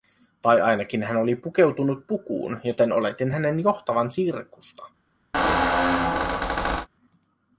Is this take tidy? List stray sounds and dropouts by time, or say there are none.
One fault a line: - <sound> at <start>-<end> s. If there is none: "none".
- squeak at 5.3-6.9 s